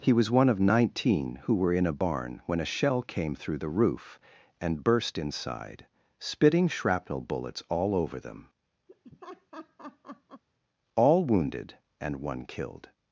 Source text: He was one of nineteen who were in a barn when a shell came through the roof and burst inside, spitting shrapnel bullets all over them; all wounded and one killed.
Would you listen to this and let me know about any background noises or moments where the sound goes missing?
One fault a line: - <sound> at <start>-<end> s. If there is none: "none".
- laugh at 8.9-10.4 s